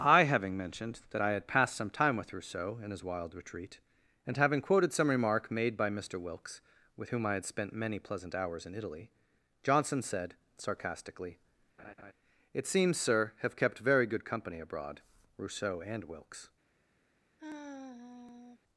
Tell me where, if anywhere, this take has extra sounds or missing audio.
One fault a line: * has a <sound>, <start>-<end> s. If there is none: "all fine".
* has a laugh, 11.8-12.1 s
* has a sigh, 17.4-18.6 s